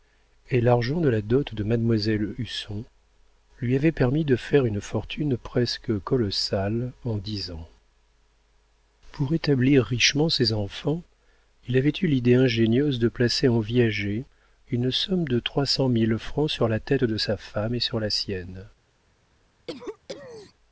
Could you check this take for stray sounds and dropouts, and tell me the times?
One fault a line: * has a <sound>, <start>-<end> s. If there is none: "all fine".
* has a cough, 19.7-20.5 s